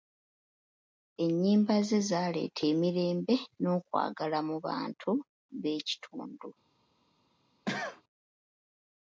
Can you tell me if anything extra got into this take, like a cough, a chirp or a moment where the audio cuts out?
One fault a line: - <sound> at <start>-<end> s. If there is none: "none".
- cough at 7.7-8.0 s